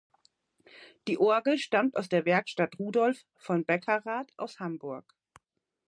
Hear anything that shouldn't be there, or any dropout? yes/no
no